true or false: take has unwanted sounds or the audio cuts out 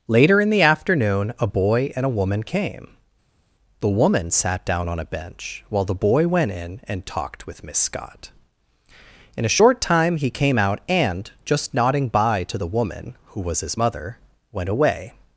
false